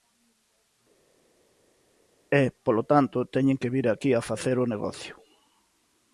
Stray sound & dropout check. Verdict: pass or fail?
pass